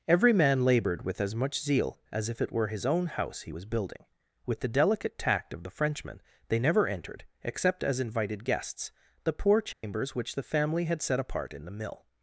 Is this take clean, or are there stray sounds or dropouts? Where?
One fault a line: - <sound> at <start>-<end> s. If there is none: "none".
- dropout at 9.7-9.8 s